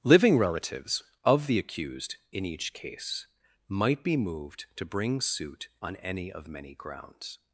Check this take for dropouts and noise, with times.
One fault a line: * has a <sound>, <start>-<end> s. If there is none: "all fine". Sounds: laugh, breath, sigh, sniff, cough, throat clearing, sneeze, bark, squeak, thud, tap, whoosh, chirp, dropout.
all fine